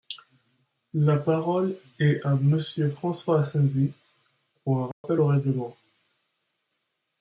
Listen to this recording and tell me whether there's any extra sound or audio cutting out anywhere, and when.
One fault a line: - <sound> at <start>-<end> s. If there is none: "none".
- dropout at 4.9-5.0 s